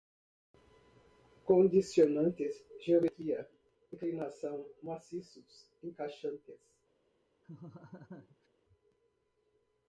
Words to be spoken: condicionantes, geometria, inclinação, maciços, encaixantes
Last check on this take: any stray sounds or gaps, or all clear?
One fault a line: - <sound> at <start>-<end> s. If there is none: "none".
- laugh at 7.4-8.5 s